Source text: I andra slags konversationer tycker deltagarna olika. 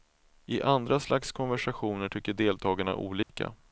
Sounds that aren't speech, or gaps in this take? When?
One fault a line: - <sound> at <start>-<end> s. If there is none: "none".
- dropout at 3.2-3.3 s